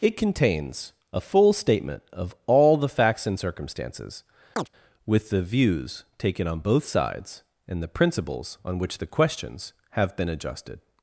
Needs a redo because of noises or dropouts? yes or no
yes